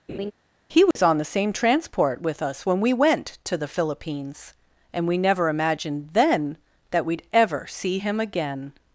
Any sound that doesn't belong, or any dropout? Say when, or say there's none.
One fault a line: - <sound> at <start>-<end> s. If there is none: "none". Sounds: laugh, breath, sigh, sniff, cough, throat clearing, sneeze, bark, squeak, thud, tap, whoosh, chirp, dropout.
- laugh at 0.1-0.3 s
- dropout at 0.9-1.0 s